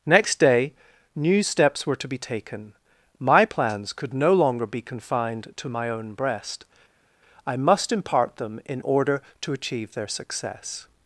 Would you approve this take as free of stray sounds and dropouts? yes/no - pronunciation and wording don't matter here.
yes